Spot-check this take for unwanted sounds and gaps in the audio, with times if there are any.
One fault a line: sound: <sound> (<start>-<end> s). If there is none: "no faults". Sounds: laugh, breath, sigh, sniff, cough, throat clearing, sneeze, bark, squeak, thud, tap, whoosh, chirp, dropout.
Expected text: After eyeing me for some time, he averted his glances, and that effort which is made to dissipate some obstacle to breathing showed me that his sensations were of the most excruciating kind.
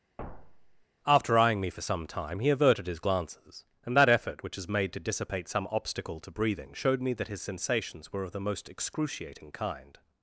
sound: thud (0.2-0.8 s)